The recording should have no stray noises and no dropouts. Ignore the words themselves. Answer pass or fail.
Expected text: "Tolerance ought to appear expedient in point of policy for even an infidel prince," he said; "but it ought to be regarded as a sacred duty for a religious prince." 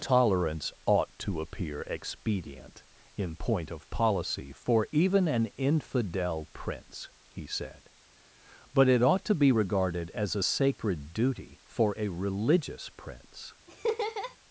fail